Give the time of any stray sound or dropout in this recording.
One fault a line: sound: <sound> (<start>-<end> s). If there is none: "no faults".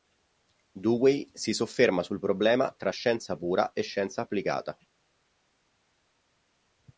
no faults